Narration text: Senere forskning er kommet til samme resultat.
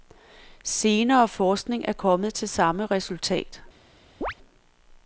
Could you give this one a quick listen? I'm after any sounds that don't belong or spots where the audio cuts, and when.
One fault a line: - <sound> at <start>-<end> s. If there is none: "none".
- chirp at 4.2-4.3 s